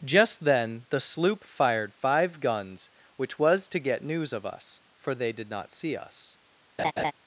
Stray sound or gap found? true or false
true